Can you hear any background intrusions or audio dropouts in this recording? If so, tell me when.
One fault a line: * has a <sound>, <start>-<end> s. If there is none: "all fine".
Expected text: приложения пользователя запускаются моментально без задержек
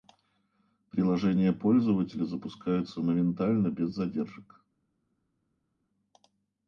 all fine